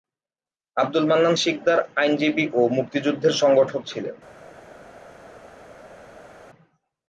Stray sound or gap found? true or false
false